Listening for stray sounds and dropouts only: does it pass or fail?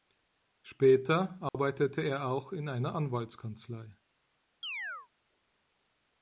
fail